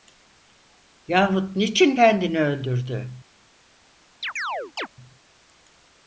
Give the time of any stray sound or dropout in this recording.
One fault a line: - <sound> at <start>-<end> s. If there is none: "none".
- chirp at 4.2-4.9 s